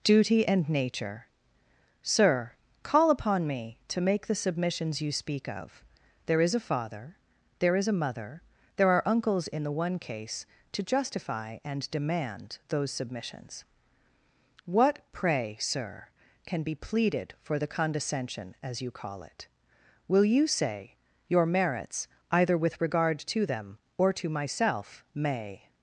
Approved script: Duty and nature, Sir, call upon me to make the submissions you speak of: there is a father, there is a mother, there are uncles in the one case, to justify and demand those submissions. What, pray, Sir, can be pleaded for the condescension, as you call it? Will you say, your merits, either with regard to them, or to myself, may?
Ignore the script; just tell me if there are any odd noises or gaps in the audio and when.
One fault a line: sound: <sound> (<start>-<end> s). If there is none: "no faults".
no faults